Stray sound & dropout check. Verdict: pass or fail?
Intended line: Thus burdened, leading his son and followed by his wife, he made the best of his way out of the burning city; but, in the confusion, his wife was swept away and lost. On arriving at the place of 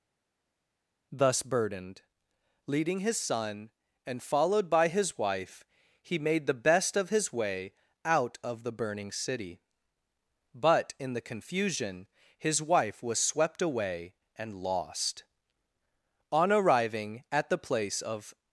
pass